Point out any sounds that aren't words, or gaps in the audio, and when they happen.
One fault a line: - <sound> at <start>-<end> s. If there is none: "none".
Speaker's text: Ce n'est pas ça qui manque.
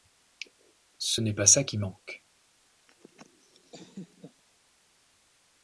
- laugh at 2.9-4.4 s